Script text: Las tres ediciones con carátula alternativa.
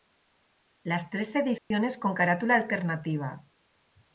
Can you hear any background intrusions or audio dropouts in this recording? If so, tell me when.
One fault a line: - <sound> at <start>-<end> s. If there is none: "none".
- dropout at 1.6-1.7 s